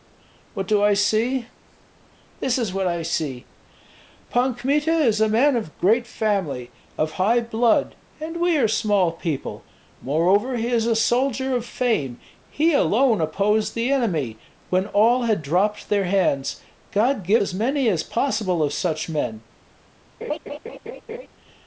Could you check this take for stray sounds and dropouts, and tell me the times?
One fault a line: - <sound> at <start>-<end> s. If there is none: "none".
- laugh at 20.2-21.3 s